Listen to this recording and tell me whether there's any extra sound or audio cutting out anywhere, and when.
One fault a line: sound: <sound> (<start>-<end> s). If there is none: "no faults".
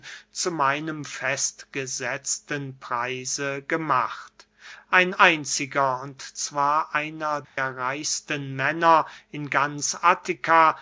sound: dropout (7.4-7.6 s)